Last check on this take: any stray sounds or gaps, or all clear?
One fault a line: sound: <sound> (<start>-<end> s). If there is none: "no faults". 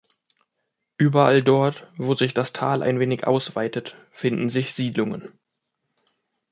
no faults